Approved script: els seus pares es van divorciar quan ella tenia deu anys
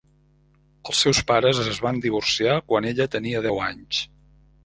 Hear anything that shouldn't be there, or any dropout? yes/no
no